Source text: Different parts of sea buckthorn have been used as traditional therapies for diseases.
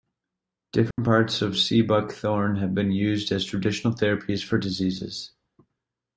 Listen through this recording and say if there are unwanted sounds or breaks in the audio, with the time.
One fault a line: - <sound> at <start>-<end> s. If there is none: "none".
- dropout at 0.9-1.0 s